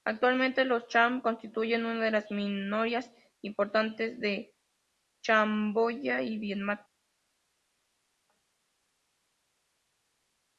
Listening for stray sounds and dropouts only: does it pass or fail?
pass